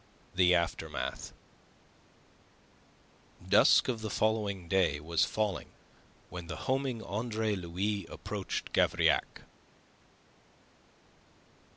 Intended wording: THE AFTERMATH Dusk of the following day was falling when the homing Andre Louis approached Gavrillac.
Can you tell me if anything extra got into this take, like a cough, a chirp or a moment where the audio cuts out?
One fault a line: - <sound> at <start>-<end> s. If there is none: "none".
none